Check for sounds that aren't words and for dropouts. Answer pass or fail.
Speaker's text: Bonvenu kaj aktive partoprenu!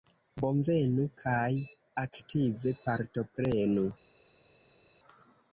pass